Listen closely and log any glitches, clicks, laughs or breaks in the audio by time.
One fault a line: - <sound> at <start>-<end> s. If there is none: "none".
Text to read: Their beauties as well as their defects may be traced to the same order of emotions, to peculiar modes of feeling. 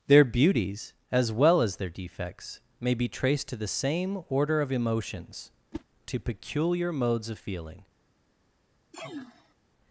- whoosh at 5.7-5.8 s
- sneeze at 8.9-9.5 s